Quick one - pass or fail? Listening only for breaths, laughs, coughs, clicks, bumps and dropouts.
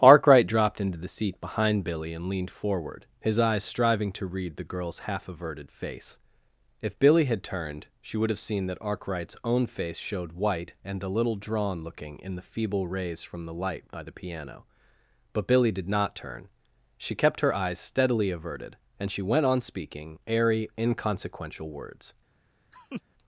fail